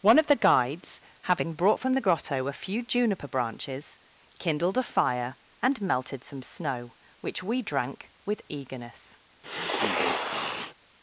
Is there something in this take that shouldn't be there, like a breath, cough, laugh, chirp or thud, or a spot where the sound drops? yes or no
yes